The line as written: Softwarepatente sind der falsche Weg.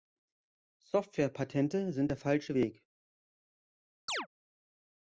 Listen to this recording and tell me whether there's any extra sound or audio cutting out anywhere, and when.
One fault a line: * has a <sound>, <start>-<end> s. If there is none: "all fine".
* has a chirp, 4.1-4.3 s